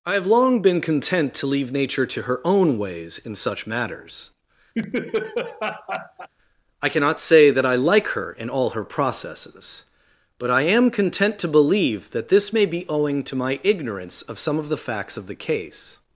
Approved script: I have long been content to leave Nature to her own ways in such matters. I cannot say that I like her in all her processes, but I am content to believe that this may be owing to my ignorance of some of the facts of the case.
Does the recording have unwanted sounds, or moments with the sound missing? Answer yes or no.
yes